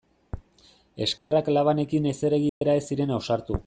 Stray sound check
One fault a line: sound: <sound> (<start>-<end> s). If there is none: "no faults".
sound: dropout (1.2-1.3 s)
sound: dropout (2.5-2.6 s)